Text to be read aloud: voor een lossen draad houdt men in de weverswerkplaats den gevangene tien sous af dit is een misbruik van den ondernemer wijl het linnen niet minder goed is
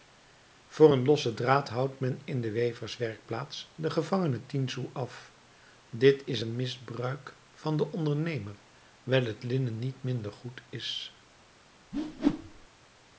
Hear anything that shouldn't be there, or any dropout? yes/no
yes